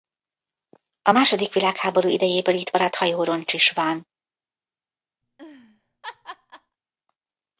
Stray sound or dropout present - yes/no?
yes